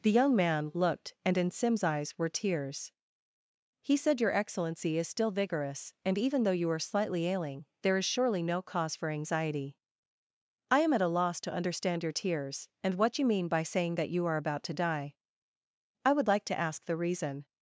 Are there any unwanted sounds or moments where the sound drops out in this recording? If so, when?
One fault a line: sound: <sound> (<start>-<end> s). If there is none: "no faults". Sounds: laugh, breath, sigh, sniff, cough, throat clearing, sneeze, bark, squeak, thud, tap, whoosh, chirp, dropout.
no faults